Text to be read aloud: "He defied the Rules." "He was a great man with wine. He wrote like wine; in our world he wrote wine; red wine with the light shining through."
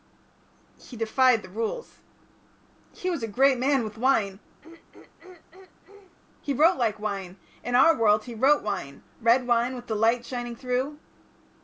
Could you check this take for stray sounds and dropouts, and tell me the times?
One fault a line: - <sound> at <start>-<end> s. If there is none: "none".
- throat clearing at 4.6-6.2 s